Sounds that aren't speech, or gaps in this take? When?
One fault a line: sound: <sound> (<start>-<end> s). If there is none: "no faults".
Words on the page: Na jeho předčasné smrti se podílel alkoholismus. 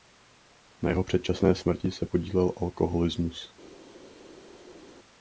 no faults